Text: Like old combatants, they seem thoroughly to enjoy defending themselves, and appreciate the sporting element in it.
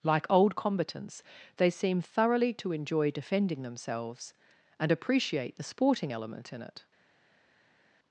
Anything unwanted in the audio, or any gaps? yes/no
no